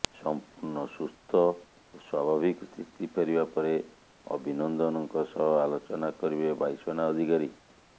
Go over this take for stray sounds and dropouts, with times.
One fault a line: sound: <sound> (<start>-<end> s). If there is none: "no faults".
no faults